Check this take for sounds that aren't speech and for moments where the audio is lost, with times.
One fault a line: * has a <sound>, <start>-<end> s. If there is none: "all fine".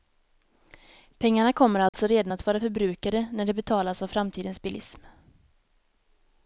* has a dropout, 1.9-1.9 s